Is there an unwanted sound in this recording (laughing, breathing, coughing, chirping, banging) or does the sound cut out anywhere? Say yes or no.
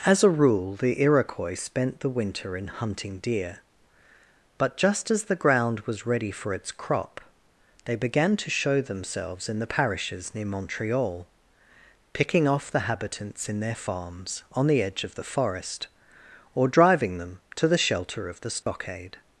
yes